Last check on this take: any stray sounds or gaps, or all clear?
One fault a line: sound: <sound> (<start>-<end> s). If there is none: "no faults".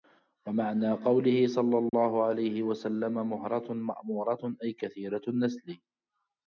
sound: dropout (1.9-1.9 s)